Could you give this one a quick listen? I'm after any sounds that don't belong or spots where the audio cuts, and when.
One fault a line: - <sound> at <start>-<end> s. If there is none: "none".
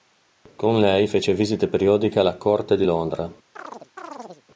- chirp at 3.6-4.4 s